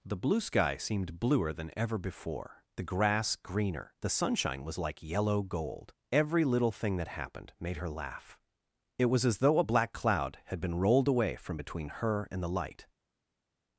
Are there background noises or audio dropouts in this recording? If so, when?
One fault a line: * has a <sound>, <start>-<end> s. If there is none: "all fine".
all fine